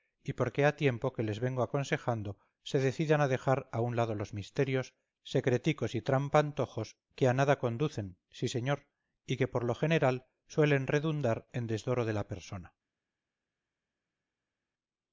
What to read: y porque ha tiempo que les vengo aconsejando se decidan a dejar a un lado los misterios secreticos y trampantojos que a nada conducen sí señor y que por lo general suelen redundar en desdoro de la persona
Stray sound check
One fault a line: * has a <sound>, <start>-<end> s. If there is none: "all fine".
all fine